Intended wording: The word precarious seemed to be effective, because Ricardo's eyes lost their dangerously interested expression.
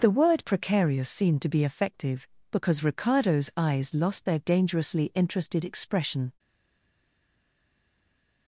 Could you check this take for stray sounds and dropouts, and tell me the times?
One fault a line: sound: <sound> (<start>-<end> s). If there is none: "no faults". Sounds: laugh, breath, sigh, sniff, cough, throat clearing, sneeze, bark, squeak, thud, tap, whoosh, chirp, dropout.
no faults